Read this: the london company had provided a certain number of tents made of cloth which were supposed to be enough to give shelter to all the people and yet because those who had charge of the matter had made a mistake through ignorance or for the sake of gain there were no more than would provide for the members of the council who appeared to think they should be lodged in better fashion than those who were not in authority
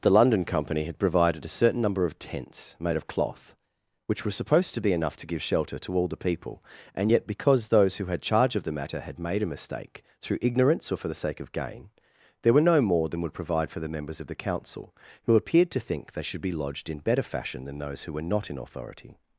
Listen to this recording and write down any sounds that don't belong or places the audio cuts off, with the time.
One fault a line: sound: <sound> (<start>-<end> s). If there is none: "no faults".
no faults